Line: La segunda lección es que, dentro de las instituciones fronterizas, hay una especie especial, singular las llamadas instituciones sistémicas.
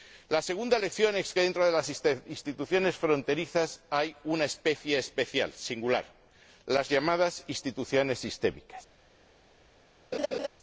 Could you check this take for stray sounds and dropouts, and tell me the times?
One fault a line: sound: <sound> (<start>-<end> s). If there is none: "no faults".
sound: laugh (10.1-10.5 s)